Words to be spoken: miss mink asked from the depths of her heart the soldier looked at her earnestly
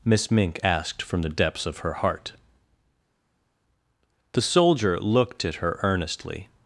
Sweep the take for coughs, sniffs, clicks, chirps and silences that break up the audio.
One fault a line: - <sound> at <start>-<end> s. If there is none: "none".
none